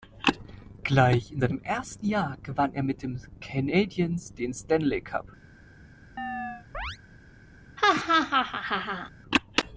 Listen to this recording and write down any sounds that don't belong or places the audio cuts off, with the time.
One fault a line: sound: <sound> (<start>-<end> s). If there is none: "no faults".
sound: chirp (6.2-7.0 s)
sound: laugh (7.8-9.1 s)